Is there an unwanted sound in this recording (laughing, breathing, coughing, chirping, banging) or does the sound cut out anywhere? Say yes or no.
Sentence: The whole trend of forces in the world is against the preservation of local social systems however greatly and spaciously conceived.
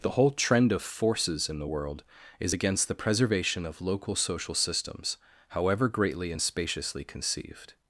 no